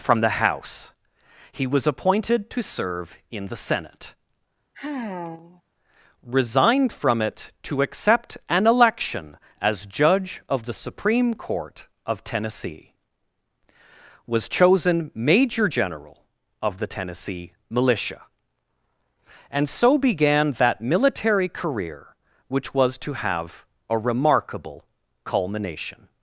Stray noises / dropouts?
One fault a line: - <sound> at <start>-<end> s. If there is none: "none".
- sigh at 4.7-5.6 s